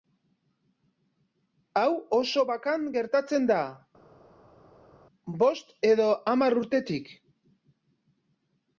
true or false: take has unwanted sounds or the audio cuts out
false